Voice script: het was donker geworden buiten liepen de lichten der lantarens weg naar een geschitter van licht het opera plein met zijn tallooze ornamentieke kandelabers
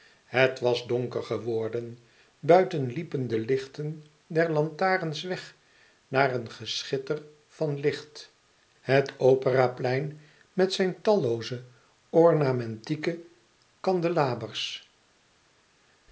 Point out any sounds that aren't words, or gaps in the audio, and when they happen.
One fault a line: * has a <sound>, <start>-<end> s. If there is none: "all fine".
all fine